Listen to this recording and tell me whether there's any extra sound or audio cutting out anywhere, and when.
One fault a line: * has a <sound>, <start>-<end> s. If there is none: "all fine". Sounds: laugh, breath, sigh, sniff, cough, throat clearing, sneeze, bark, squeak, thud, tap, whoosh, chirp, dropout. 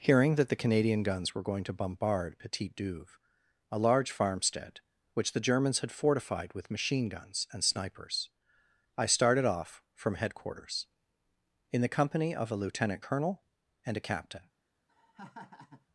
* has a laugh, 14.9-15.9 s